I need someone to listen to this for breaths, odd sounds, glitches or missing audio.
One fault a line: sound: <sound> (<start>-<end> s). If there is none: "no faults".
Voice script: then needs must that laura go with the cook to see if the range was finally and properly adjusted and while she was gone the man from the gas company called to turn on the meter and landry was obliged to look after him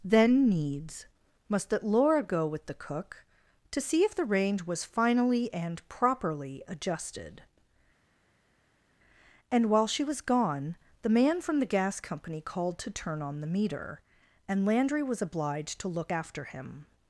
no faults